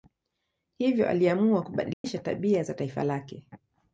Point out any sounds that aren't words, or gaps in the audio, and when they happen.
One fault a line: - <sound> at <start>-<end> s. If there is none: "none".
- dropout at 1.9-2.0 s